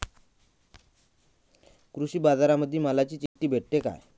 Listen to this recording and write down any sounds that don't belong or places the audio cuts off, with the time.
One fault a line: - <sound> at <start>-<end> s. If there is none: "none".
- dropout at 3.3-3.4 s